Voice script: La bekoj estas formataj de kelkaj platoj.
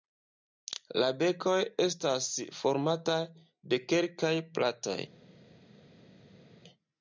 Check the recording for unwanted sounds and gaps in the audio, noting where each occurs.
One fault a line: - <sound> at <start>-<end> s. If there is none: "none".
none